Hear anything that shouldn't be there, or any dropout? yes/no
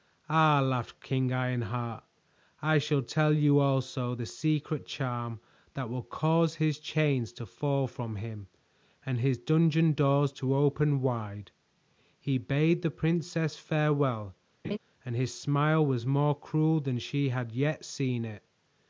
yes